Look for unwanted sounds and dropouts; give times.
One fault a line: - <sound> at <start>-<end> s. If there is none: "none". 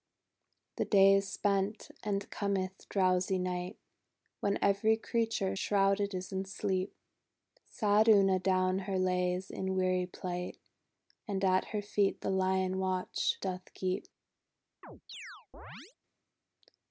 - chirp at 14.8-16.0 s